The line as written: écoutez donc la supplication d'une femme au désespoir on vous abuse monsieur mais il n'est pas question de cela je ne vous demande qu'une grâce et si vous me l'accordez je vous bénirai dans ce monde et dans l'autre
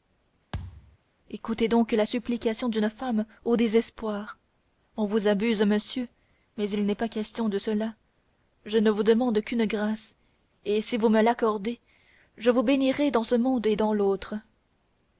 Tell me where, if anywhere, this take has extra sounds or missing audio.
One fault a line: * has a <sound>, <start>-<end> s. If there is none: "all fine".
* has a thud, 0.5-1.0 s